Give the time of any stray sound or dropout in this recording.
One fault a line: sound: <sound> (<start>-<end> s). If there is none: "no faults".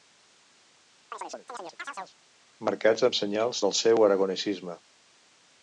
sound: chirp (1.1-2.2 s)